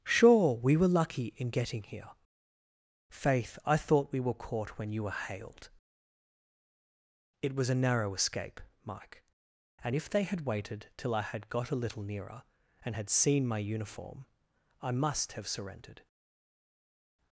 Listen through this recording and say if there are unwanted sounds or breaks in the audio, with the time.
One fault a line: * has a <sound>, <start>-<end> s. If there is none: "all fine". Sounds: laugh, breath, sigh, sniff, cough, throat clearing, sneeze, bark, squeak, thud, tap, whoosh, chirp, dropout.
all fine